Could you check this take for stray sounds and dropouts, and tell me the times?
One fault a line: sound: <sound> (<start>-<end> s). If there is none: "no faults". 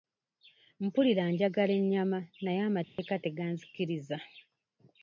sound: dropout (2.8-3.0 s)